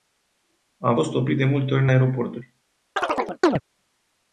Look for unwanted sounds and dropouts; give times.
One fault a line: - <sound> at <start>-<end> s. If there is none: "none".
- chirp at 3.0-3.6 s